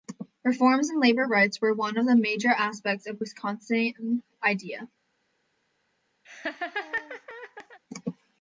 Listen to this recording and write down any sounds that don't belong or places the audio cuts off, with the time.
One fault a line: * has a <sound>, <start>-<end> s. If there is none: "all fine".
* has a laugh, 6.2-7.8 s